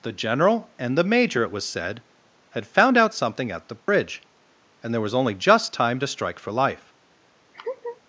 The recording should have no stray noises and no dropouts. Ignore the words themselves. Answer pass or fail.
fail